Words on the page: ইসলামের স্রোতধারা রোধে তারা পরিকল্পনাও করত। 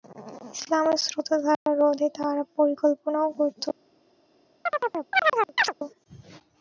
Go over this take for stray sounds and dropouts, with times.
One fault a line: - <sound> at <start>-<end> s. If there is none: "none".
- dropout at 1.5-1.7 s
- chirp at 4.7-5.7 s